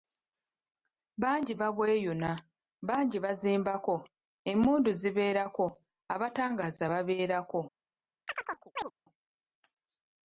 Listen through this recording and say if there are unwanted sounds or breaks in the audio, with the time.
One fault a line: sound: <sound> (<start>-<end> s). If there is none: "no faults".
sound: chirp (8.3-8.9 s)